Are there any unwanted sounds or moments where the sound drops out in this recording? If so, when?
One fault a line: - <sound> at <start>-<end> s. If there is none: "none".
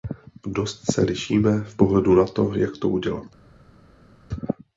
none